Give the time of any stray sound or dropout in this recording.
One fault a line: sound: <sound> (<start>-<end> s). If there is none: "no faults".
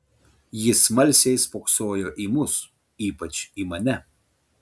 no faults